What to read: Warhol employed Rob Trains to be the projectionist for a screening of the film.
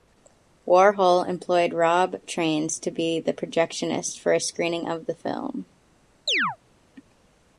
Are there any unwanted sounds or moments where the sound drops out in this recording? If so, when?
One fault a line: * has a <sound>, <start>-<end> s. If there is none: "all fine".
* has a chirp, 6.3-6.6 s